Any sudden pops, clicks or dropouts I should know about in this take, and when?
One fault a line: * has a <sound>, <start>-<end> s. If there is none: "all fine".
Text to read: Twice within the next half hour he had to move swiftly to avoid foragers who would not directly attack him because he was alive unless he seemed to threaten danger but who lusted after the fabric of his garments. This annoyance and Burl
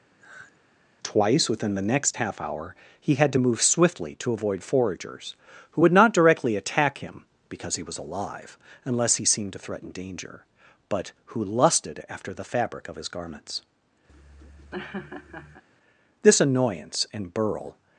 * has a sigh, 0.2-0.6 s
* has a laugh, 14.1-15.6 s